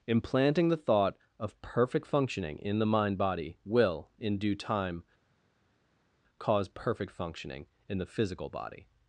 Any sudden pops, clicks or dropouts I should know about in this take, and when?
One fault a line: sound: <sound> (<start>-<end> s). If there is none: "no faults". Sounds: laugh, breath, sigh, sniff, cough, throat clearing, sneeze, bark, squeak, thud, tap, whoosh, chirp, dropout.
no faults